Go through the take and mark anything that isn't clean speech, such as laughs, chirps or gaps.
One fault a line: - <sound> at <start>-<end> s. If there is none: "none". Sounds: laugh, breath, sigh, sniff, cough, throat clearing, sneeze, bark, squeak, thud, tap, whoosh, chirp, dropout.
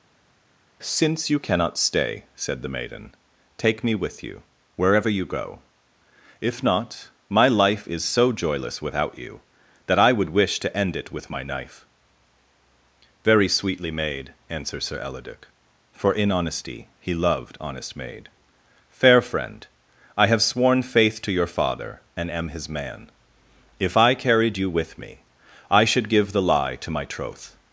none